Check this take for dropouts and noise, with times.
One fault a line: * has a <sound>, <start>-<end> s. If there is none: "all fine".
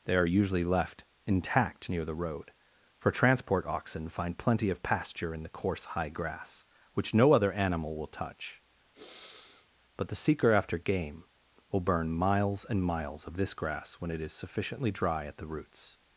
* has a sniff, 8.9-9.7 s